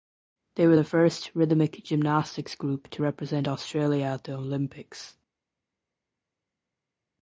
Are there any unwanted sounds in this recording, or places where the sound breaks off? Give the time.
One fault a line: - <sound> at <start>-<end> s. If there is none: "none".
none